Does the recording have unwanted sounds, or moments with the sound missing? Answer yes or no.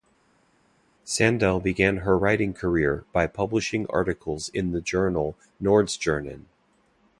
no